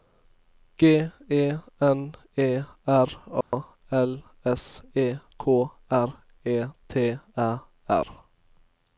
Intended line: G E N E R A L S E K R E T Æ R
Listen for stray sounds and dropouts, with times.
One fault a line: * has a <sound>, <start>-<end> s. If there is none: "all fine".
* has a dropout, 3.4-3.5 s